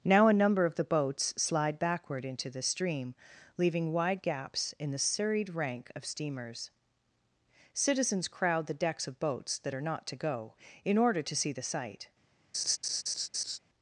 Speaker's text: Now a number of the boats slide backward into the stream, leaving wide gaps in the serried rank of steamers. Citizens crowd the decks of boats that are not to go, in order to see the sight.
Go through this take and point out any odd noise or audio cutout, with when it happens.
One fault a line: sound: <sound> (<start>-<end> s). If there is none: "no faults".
sound: laugh (12.5-13.6 s)